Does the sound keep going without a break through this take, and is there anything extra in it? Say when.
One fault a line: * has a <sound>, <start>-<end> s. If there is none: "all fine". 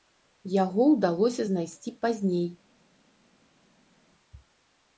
all fine